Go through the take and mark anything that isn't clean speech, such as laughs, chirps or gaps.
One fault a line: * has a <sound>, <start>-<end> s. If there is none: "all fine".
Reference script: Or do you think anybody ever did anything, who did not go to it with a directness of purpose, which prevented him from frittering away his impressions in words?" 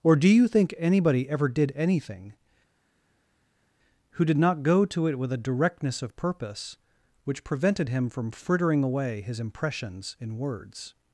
all fine